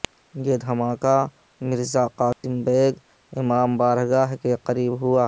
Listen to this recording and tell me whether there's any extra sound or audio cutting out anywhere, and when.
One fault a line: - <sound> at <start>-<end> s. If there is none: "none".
- dropout at 2.3-2.4 s